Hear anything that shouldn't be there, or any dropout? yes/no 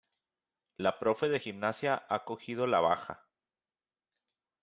no